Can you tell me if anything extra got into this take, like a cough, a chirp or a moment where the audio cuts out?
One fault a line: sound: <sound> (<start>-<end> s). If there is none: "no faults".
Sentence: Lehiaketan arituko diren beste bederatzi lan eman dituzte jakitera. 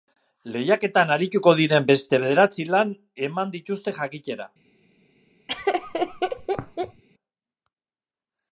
sound: laugh (5.5-7.0 s)